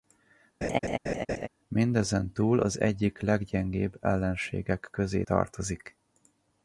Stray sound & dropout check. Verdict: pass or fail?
fail